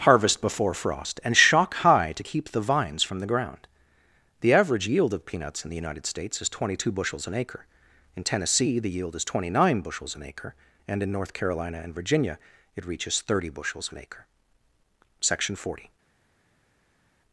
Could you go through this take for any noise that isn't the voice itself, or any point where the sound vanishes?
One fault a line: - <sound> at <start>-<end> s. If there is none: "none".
none